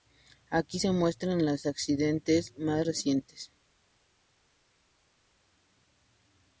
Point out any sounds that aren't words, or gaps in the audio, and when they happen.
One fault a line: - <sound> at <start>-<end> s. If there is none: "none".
none